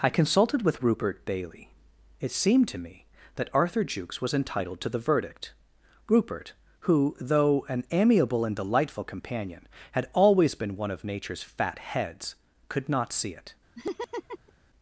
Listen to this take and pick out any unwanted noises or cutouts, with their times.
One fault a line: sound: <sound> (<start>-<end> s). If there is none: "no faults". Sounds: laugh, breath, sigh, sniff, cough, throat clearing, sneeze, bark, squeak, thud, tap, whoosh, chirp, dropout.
sound: laugh (13.7-14.5 s)